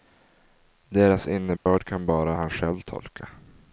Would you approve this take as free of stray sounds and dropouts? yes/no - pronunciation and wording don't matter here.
no